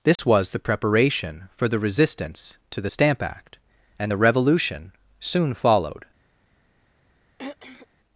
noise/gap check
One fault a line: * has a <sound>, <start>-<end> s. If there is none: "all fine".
* has a dropout, 0.2-0.2 s
* has a throat clearing, 7.4-7.9 s